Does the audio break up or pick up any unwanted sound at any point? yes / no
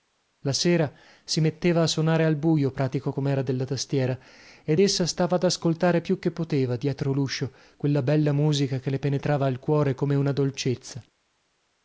no